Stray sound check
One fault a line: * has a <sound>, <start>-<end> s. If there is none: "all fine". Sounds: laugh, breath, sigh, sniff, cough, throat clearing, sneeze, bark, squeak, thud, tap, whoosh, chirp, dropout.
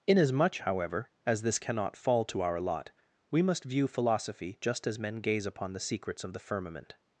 all fine